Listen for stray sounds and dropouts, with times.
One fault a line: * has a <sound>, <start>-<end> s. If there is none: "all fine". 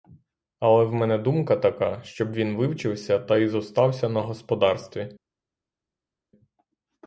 all fine